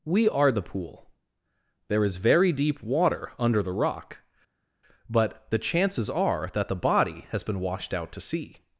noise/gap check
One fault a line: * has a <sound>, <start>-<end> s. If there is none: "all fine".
all fine